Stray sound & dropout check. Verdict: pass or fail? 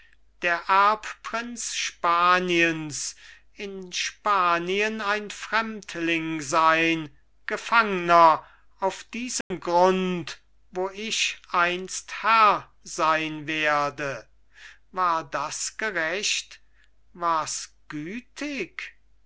fail